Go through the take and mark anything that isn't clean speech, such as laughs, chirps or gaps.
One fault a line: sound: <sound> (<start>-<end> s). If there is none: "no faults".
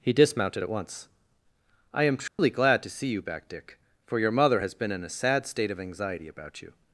sound: dropout (2.3-2.4 s)